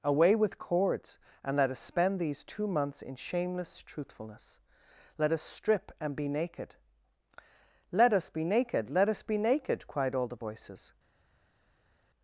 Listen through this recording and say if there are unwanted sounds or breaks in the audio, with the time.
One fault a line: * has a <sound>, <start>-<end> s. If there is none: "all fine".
all fine